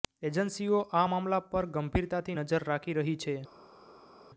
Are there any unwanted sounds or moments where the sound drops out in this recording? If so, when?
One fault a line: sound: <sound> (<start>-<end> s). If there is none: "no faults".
no faults